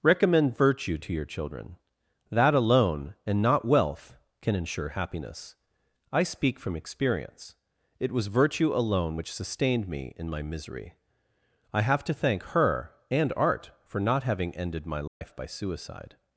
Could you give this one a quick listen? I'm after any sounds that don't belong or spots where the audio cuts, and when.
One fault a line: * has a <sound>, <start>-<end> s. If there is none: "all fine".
* has a dropout, 15.1-15.2 s